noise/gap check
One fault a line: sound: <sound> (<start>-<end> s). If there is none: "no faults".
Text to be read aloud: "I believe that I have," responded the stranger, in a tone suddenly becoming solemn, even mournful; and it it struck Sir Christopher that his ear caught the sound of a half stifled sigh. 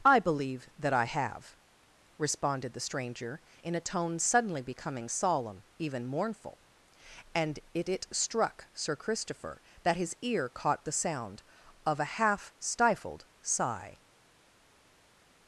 no faults